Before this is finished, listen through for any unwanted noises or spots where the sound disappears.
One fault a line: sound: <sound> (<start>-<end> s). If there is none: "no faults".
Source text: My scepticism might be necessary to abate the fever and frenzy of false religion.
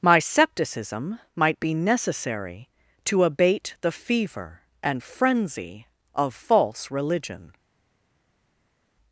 no faults